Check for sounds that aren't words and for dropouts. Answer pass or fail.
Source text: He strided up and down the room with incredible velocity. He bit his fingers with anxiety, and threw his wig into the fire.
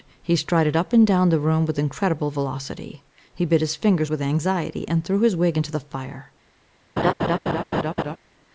fail